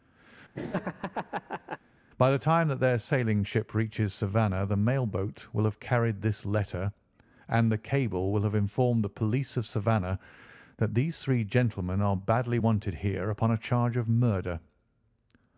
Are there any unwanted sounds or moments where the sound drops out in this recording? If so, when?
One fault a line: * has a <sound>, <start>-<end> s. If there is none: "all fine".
* has a laugh, 0.5-1.8 s